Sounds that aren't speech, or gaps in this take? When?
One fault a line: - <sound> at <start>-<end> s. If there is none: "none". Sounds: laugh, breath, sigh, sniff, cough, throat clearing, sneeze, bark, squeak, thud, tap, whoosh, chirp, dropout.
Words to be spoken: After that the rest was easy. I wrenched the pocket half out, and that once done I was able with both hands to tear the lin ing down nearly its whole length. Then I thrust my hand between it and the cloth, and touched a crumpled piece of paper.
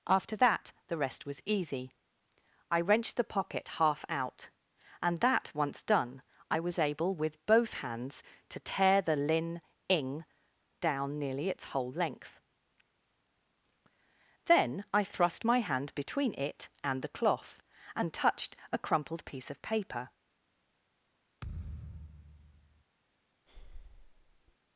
- thud at 21.4-22.8 s
- breath at 23.5-24.6 s